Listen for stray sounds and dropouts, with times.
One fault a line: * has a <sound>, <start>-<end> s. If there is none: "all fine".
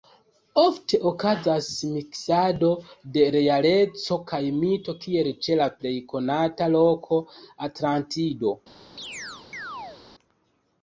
* has a chirp, 9.0-10.0 s